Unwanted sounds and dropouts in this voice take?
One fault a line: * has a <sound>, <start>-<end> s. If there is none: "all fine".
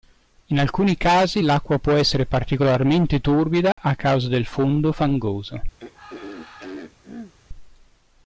* has a dropout, 3.7-3.8 s
* has a throat clearing, 5.8-7.3 s